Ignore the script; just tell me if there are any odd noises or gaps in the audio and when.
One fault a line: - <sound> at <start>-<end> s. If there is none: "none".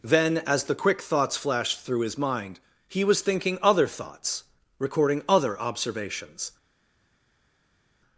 none